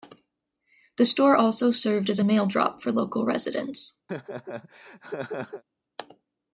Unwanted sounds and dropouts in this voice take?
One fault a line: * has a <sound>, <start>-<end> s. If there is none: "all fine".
* has a laugh, 4.1-5.6 s